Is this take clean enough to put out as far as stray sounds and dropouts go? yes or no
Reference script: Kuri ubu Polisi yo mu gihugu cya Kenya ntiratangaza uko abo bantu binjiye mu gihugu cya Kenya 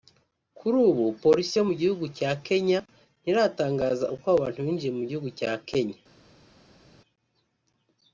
yes